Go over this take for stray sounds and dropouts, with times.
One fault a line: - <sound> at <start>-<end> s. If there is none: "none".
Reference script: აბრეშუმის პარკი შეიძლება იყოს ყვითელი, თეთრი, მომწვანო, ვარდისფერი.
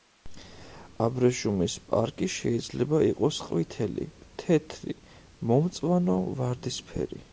none